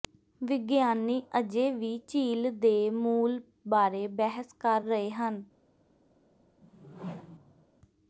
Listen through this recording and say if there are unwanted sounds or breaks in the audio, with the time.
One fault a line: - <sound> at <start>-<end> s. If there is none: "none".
- whoosh at 6.6-7.7 s